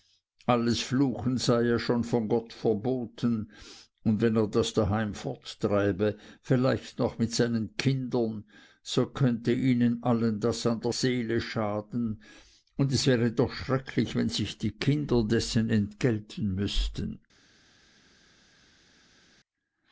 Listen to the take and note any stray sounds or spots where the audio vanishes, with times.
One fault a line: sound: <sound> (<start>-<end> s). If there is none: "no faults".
no faults